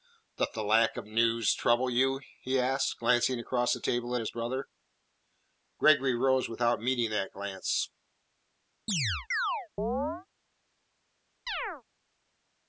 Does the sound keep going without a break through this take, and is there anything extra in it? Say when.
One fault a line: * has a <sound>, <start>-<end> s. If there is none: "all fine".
* has a chirp, 8.9-10.3 s
* has a chirp, 11.5-11.8 s